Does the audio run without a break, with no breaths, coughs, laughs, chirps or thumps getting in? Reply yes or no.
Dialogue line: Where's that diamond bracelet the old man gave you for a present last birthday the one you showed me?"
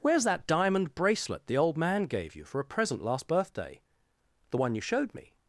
yes